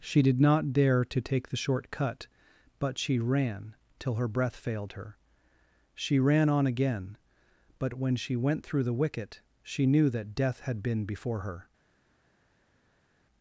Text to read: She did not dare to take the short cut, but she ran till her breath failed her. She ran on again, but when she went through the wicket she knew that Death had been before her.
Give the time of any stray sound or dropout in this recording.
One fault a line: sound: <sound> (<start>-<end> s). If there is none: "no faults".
no faults